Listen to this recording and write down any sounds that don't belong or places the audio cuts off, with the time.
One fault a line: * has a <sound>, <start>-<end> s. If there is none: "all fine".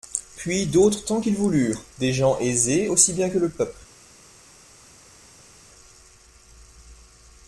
all fine